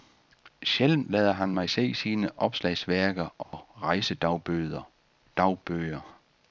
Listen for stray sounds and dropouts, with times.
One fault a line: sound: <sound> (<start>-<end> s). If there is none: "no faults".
sound: dropout (3.4-3.5 s)